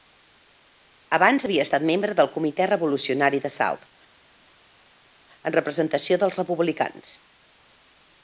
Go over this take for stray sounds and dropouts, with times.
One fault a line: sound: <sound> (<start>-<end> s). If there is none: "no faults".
no faults